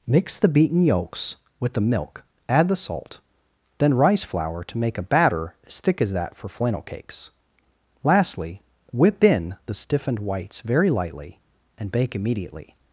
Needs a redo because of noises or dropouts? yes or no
no